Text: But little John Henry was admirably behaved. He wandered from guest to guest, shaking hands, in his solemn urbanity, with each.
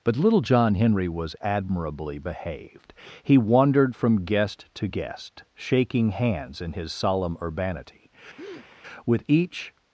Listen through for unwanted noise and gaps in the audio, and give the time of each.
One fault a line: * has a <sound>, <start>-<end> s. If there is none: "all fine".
* has a breath, 8.4-8.7 s